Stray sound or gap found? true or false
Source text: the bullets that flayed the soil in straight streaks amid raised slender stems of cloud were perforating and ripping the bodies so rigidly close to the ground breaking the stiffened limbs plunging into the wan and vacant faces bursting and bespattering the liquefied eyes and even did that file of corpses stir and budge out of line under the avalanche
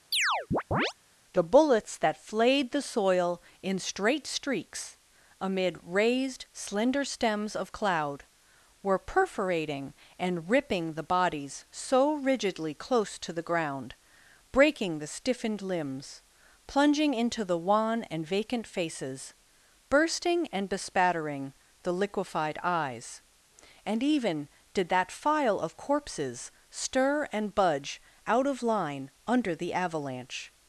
true